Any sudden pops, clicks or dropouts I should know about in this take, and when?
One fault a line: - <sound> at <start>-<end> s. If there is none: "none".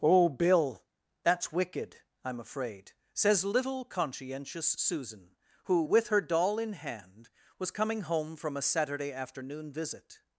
none